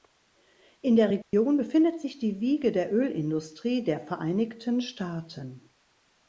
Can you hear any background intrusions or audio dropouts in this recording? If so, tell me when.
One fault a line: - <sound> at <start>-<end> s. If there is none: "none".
- dropout at 1.2-1.3 s